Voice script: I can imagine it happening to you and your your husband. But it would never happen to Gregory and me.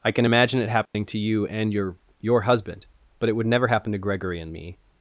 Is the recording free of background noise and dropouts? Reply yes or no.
no